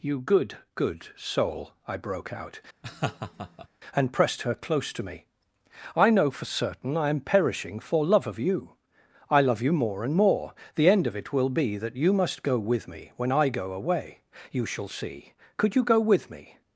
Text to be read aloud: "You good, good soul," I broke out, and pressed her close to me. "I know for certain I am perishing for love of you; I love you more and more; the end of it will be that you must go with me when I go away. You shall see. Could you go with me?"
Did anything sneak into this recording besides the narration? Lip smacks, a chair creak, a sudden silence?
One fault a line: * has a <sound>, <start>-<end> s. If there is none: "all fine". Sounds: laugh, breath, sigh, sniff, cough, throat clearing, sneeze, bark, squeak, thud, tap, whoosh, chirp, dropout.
* has a laugh, 2.8-3.7 s